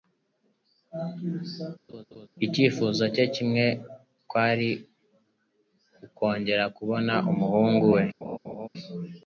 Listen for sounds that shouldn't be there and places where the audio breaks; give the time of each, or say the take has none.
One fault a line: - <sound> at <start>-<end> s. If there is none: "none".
- laugh at 1.9-2.3 s
- laugh at 8.2-8.7 s